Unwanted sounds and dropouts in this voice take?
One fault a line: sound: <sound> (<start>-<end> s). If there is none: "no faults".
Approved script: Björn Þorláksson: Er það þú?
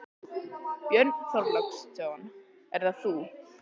no faults